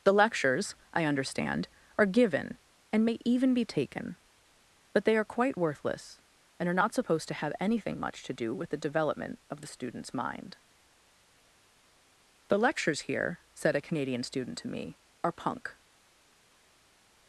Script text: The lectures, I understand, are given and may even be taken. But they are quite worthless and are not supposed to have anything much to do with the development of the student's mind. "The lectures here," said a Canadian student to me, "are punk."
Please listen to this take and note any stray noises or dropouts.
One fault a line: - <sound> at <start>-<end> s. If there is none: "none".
none